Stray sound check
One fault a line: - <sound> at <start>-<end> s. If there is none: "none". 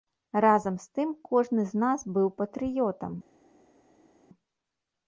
none